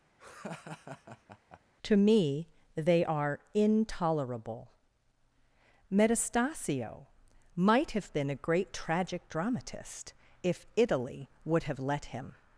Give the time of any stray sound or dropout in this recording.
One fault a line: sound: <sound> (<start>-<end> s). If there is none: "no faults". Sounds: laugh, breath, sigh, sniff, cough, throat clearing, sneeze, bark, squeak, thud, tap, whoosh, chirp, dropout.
sound: laugh (0.2-1.6 s)